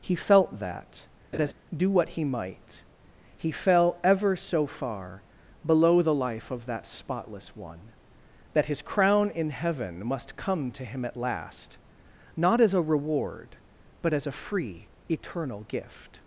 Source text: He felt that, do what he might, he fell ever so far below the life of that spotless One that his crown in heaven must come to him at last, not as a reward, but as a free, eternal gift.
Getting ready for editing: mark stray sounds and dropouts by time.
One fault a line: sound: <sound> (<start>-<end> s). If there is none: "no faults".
sound: laugh (1.3-1.5 s)